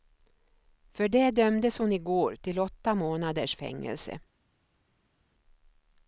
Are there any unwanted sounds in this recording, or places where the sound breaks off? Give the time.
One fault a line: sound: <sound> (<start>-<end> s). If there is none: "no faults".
no faults